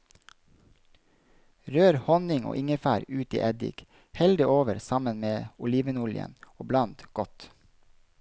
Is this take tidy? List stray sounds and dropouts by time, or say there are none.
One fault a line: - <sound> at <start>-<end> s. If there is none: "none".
none